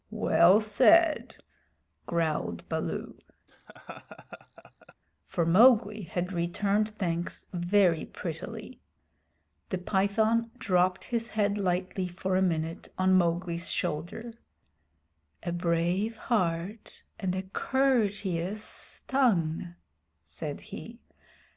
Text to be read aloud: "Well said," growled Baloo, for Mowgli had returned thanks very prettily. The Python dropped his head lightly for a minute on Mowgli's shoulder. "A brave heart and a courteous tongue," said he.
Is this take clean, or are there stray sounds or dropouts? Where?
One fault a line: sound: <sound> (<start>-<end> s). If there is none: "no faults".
sound: laugh (3.5-4.9 s)